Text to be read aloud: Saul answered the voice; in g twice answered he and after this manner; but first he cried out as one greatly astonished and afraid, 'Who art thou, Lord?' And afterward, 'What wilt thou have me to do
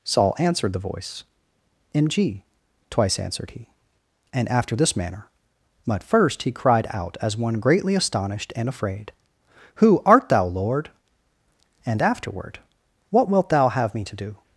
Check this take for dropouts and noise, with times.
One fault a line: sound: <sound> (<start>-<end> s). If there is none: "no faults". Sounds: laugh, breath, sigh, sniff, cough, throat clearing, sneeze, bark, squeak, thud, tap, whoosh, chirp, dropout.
no faults